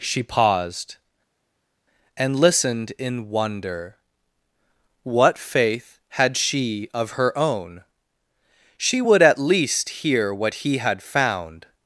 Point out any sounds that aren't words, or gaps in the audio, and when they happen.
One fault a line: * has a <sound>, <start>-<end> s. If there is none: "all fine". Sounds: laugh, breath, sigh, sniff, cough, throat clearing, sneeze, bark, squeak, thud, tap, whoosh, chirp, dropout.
all fine